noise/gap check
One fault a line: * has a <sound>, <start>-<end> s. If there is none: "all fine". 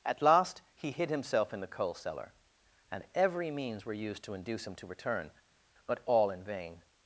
all fine